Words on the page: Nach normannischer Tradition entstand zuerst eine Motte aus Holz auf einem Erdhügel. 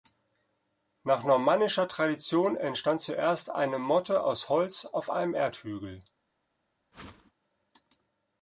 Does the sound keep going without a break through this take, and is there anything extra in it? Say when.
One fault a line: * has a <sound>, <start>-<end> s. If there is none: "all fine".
* has a whoosh, 6.9-7.3 s